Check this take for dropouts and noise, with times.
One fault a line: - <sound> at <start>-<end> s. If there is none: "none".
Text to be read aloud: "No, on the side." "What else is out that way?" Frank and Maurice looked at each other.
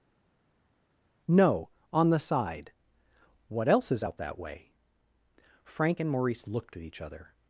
none